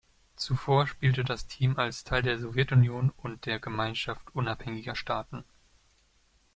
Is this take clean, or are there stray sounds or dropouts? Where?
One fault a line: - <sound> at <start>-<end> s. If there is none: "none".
none